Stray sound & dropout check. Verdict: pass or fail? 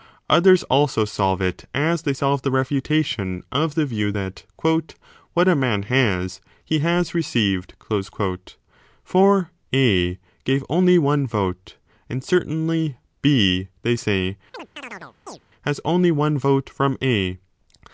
fail